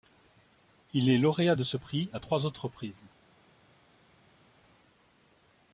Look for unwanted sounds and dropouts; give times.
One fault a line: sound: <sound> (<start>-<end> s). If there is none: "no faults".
no faults